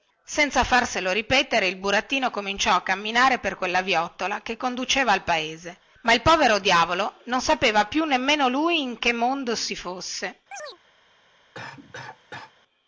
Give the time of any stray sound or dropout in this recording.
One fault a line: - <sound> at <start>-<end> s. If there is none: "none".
- chirp at 10.5-10.8 s
- cough at 11.5-12.5 s